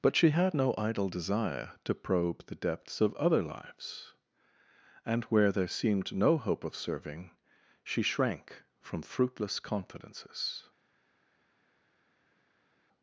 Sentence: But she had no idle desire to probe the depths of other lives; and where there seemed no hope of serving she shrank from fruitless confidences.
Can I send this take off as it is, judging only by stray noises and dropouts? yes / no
yes